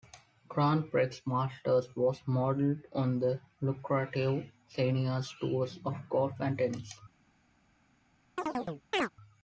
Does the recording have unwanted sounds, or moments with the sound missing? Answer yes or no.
yes